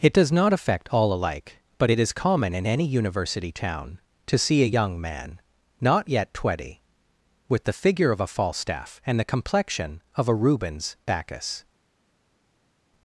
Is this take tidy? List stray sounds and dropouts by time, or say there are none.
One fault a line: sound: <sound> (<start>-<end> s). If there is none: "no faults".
no faults